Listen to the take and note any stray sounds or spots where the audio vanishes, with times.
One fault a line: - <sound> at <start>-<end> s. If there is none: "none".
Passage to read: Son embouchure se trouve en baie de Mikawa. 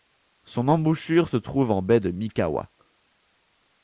none